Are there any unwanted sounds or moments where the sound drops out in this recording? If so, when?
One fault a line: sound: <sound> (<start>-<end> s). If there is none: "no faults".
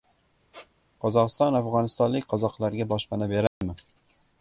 sound: squeak (0.5-0.7 s)
sound: dropout (3.5-3.6 s)